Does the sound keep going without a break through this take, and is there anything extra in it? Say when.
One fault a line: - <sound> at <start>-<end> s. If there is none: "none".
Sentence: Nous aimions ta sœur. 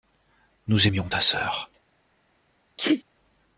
- sneeze at 2.8-3.0 s